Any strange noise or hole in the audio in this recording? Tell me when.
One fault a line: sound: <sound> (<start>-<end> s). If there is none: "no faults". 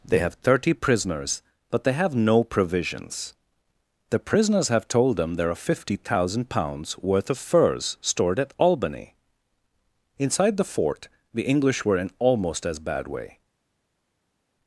no faults